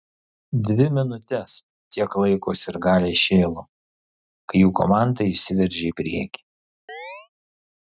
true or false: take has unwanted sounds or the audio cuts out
true